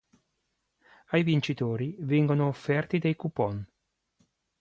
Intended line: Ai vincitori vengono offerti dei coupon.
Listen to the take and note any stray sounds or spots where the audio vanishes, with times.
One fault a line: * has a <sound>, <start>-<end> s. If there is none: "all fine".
all fine